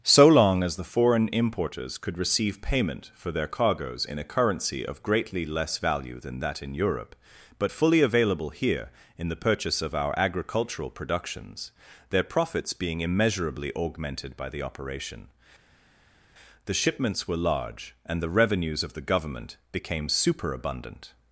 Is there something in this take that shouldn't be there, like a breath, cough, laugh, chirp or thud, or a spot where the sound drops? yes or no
no